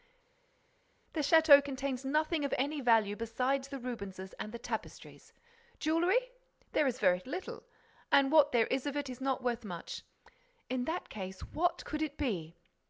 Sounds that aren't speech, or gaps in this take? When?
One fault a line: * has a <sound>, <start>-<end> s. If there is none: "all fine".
all fine